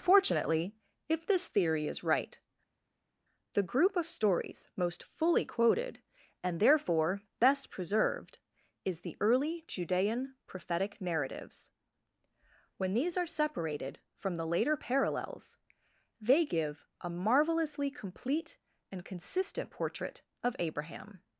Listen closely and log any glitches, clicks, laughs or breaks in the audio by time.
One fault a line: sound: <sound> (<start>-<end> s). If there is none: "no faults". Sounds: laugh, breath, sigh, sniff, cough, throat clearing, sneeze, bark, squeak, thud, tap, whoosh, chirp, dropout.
no faults